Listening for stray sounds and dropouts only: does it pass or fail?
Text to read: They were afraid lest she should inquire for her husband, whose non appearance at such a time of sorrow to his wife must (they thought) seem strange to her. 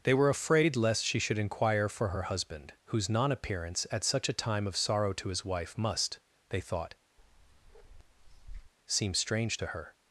fail